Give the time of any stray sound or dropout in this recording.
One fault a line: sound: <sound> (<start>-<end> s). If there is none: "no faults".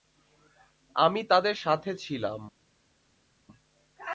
no faults